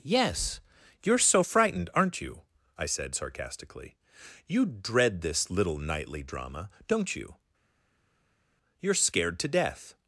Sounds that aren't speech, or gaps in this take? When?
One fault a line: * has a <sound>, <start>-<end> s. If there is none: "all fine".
all fine